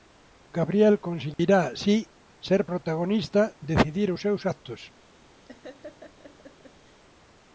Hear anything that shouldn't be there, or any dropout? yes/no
yes